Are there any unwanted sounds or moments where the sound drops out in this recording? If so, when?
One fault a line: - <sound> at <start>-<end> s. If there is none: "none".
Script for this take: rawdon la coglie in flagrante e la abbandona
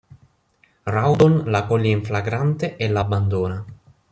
none